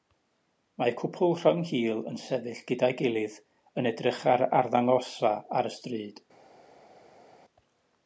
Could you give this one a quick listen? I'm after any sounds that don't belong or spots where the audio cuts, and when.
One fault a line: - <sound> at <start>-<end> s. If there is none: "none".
none